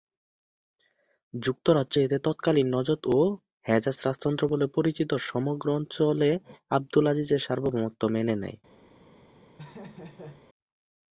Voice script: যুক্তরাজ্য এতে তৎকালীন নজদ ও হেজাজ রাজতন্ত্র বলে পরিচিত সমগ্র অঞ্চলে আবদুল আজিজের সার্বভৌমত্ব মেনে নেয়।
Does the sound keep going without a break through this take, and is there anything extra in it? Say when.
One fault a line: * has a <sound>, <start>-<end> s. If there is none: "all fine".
* has a laugh, 9.6-10.4 s